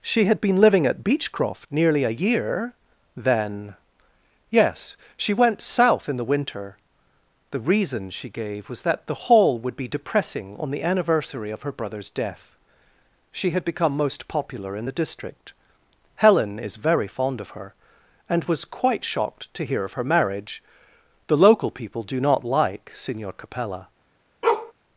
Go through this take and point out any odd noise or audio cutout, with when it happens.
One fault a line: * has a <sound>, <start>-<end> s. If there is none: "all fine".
* has a bark, 24.4-24.7 s